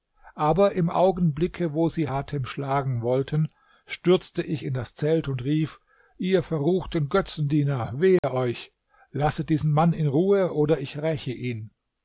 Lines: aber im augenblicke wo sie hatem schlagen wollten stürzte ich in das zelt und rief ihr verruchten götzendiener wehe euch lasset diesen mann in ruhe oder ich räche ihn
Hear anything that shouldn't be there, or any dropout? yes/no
yes